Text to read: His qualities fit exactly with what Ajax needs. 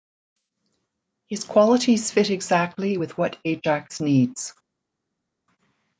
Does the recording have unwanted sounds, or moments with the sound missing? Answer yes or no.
no